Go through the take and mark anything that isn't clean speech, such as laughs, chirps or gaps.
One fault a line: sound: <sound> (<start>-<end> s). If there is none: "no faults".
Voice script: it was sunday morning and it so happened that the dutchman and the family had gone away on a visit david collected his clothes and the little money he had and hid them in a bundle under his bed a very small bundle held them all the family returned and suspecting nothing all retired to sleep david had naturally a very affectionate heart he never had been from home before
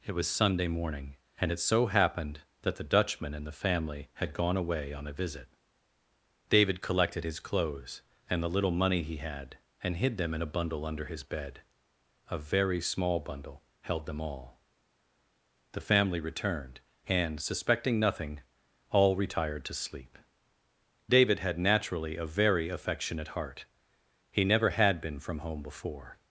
no faults